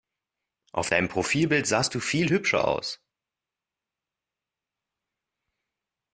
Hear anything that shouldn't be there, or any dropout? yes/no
no